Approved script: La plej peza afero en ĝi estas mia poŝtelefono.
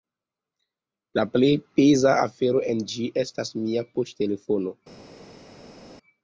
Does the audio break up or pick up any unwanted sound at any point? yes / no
no